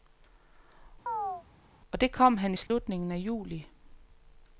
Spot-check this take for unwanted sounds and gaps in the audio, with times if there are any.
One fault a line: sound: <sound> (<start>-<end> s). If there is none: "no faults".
sound: chirp (1.1-1.4 s)
sound: dropout (2.7-2.7 s)